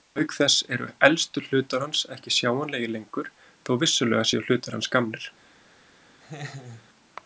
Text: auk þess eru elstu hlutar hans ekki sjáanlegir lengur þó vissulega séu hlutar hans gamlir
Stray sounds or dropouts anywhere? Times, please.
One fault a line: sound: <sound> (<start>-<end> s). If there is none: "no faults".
sound: laugh (6.2-6.9 s)